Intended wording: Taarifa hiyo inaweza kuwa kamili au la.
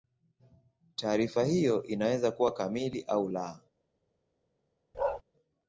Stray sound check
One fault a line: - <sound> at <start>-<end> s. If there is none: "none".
- bark at 4.9-5.2 s